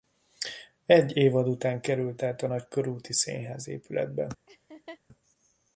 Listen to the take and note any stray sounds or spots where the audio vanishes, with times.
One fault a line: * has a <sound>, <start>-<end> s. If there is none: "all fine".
* has a laugh, 4.5-5.0 s